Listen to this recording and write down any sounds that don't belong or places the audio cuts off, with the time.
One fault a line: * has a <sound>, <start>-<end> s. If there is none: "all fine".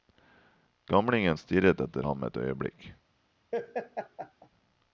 * has a laugh, 3.5-4.5 s